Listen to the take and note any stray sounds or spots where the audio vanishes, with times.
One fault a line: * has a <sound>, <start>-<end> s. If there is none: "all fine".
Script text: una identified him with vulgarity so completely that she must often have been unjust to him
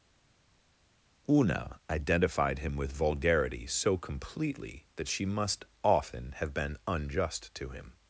all fine